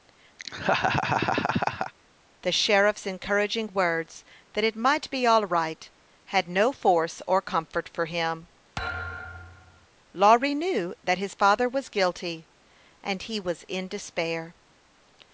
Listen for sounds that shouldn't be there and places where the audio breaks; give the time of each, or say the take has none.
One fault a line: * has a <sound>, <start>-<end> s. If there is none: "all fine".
* has a laugh, 0.4-1.9 s
* has a thud, 8.8-9.9 s